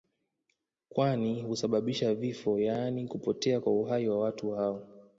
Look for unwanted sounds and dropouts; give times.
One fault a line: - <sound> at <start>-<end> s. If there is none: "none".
none